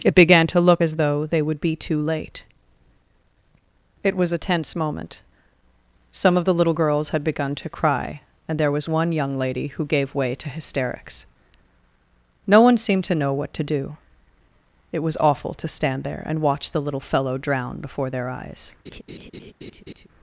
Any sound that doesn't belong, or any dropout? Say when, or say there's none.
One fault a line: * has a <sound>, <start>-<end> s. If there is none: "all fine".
* has a laugh, 18.9-20.1 s